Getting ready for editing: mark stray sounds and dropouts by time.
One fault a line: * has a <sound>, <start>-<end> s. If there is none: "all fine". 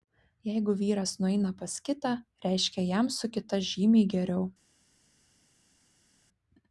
all fine